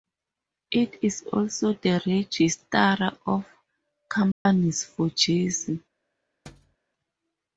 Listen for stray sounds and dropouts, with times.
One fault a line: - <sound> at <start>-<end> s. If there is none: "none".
- dropout at 4.3-4.5 s
- thud at 6.5-6.8 s